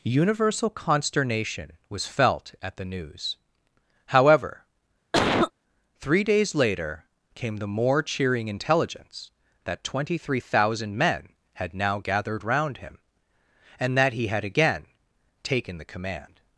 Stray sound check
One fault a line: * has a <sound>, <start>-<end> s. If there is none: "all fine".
* has a cough, 5.1-5.5 s